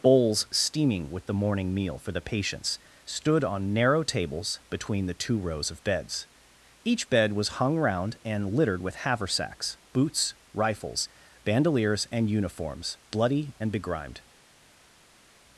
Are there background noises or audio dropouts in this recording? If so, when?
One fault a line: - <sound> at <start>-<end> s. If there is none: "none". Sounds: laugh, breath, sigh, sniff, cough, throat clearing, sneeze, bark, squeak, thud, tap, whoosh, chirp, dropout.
none